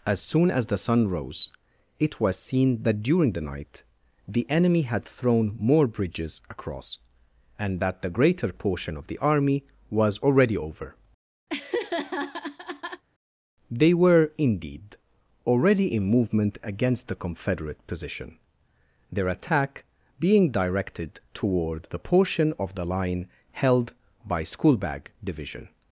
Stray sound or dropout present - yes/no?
yes